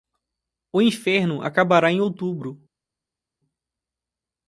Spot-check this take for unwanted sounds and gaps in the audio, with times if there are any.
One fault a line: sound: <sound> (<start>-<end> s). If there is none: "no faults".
no faults